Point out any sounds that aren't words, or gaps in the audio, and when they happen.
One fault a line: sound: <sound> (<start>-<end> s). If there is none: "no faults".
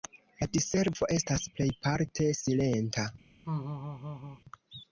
sound: laugh (3.4-4.4 s)